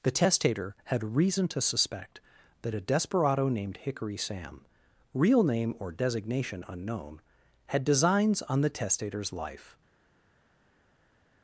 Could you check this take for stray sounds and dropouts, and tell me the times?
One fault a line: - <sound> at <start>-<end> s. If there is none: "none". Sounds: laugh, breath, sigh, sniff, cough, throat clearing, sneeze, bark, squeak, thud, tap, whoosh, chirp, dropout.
none